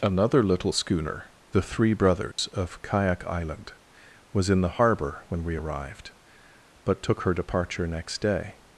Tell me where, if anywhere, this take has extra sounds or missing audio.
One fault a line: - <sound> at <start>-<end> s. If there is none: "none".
- dropout at 2.3-2.4 s